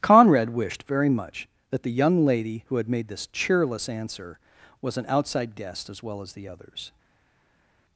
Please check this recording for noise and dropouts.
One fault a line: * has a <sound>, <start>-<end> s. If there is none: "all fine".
all fine